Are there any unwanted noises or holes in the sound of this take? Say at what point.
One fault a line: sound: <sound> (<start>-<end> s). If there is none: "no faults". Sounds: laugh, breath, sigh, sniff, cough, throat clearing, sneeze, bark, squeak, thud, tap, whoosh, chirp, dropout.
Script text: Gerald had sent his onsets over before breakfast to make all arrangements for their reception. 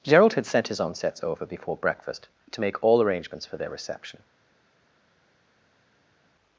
no faults